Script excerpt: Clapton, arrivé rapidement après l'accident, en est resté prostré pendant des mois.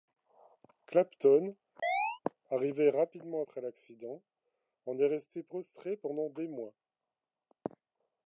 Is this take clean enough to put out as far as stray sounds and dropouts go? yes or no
no